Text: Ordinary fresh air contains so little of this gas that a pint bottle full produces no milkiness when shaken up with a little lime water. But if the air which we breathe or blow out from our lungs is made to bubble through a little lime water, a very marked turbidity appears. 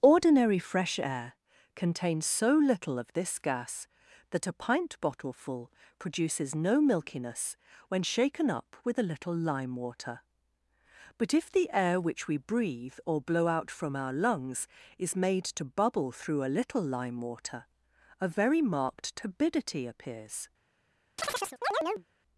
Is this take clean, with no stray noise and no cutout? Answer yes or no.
no